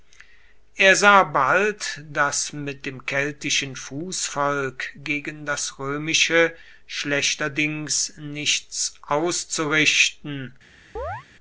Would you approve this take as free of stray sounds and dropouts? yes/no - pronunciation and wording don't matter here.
no